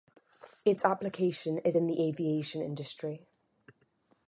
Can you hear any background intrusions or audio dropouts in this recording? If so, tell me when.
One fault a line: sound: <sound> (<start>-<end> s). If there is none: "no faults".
no faults